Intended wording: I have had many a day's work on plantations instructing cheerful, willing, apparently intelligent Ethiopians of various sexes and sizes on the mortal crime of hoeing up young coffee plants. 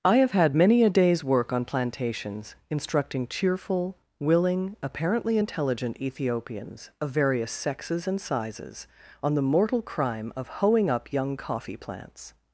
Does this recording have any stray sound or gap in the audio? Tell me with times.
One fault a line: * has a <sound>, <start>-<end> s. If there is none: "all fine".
all fine